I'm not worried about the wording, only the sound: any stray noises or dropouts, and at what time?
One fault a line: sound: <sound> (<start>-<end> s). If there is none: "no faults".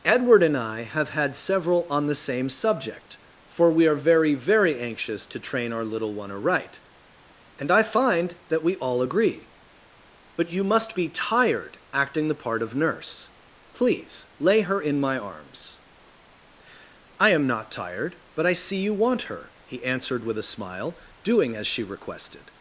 no faults